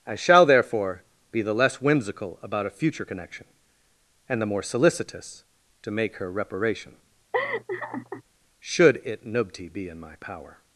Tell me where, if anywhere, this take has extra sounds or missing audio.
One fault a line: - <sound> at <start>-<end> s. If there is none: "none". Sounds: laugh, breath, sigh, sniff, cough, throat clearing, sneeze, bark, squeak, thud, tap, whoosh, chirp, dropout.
- laugh at 7.3-8.2 s